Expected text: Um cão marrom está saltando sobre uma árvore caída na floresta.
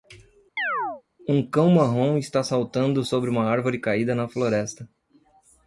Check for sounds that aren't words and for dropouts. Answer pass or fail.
fail